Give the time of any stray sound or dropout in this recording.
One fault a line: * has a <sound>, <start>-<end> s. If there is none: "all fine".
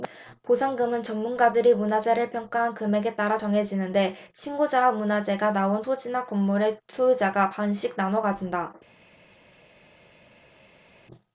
all fine